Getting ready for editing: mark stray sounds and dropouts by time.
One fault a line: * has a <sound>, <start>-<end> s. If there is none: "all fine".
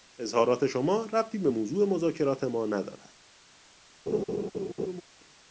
* has a laugh, 4.1-5.0 s